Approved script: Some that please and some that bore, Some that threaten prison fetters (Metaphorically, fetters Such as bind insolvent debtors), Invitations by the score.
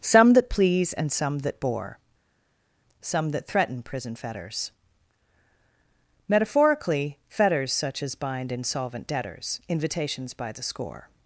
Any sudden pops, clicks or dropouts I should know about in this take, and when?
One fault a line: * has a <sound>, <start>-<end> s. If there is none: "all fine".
all fine